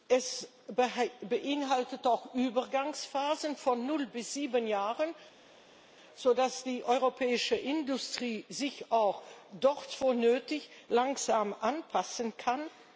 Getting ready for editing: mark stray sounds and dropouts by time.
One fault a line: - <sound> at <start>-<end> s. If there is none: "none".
none